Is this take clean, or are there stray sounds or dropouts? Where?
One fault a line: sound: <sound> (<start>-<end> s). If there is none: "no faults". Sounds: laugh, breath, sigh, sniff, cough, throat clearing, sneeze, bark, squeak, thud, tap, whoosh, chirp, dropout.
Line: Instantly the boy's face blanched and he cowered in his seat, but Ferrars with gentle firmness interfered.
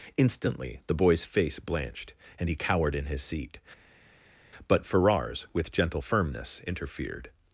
no faults